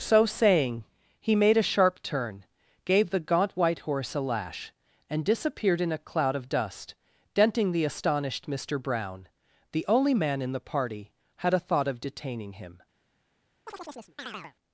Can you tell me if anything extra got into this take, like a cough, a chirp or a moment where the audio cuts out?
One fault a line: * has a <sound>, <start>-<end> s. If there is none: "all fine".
* has a chirp, 13.7-14.5 s